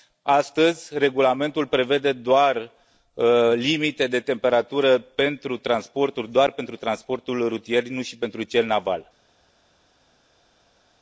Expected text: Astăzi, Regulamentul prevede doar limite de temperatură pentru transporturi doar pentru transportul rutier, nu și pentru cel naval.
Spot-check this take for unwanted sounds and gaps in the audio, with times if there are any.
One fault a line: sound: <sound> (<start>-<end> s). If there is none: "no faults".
no faults